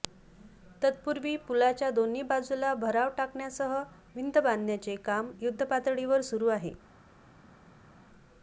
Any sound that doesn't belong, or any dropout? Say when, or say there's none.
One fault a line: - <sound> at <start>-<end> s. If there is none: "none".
none